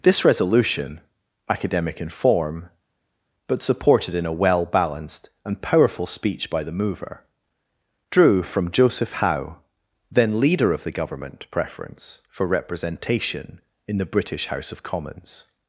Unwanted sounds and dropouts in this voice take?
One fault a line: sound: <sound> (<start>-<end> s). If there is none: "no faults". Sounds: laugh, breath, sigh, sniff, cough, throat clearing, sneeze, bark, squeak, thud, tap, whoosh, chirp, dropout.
no faults